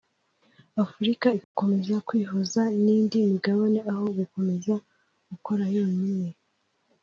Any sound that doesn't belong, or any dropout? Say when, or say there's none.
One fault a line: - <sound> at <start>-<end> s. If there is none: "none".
- dropout at 1.4-1.5 s